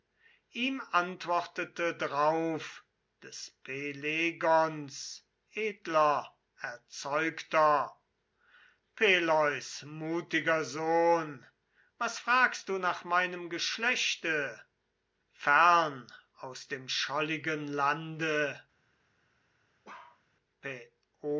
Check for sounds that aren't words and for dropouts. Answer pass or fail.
fail